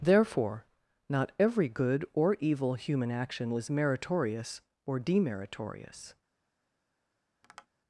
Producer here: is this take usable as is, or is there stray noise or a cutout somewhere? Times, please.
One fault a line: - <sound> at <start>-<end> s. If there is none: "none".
- tap at 7.4-7.7 s